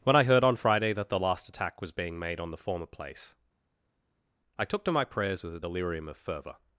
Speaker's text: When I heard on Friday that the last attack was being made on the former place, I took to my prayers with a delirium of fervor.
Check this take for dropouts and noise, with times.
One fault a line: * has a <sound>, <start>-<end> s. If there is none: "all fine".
all fine